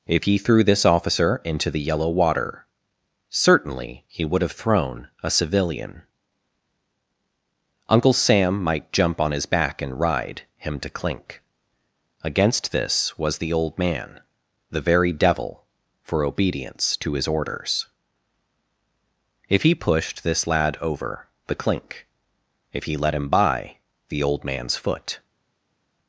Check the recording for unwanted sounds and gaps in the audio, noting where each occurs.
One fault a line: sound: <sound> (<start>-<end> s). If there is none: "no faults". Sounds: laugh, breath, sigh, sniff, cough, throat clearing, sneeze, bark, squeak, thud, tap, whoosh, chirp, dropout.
no faults